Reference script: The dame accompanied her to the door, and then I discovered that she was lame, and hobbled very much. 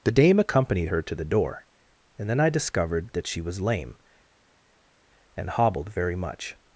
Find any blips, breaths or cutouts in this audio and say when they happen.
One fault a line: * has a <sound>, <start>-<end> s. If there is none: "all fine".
all fine